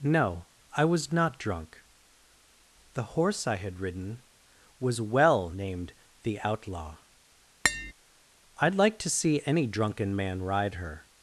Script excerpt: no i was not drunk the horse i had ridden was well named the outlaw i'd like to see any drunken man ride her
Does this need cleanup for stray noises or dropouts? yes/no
yes